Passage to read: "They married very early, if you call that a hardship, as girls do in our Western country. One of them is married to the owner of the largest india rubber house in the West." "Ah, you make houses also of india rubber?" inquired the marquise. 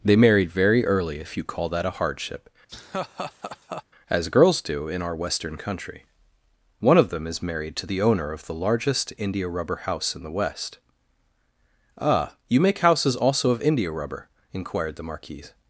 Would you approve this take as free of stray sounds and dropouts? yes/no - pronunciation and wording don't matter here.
no